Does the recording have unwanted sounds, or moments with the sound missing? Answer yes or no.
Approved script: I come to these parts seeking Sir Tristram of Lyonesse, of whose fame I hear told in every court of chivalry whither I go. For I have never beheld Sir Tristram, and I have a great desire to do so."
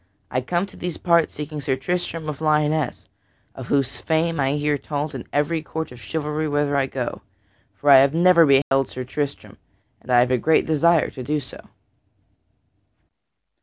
yes